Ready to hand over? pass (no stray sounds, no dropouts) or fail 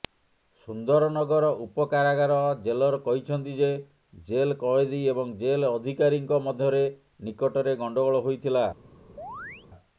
fail